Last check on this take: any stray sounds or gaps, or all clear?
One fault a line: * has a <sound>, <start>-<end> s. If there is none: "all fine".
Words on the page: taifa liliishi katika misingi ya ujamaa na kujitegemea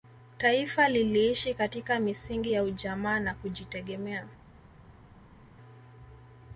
all fine